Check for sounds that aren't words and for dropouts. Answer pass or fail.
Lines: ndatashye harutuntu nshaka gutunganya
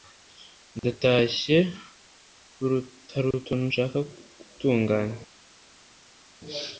pass